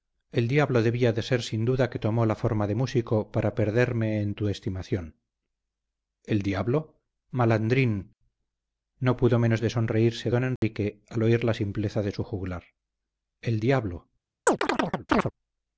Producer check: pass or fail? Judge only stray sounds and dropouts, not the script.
fail